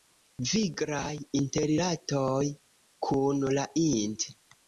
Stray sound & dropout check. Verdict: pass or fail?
pass